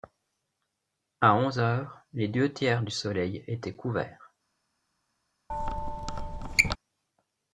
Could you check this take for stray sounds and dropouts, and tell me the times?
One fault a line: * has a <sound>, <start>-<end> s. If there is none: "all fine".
* has a squeak, 5.5-6.8 s